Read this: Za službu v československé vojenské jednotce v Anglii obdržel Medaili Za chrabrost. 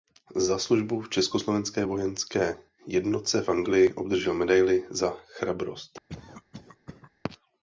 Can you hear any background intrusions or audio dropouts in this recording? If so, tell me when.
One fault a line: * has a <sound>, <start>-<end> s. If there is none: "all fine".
* has a cough, 6.1-7.1 s